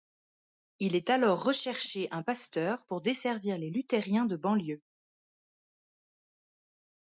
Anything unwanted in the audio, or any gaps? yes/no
no